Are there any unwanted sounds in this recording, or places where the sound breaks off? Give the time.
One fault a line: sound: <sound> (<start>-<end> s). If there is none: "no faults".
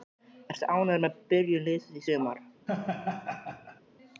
sound: laugh (2.7-3.8 s)